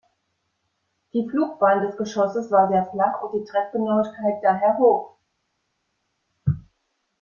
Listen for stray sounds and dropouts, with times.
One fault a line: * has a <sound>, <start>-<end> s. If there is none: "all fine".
all fine